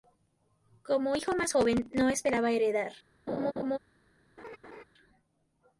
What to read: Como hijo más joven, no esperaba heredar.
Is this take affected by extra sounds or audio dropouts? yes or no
yes